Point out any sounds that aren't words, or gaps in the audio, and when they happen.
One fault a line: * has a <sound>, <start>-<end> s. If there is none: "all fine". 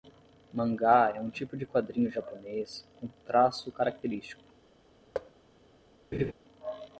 * has a thud, 5.1-5.3 s
* has a laugh, 6.1-6.3 s